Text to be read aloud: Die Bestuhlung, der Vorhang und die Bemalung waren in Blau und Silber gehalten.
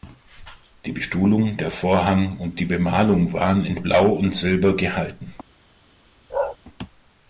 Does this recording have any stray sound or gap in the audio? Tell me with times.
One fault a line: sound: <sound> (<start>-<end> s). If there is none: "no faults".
sound: bark (6.3-6.6 s)